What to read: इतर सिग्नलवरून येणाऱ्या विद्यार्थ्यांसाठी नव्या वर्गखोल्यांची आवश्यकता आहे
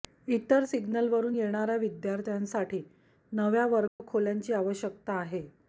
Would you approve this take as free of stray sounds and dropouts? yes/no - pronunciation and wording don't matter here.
no